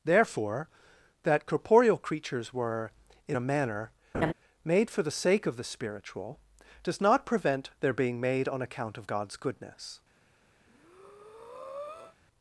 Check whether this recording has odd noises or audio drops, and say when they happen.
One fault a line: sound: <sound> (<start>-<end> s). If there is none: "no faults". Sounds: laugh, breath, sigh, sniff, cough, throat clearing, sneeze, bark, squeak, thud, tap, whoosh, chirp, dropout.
sound: laugh (4.1-4.3 s)
sound: breath (10.6-12.2 s)